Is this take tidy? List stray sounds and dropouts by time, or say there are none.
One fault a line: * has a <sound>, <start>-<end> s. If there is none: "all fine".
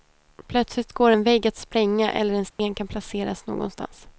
* has a dropout, 2.5-2.6 s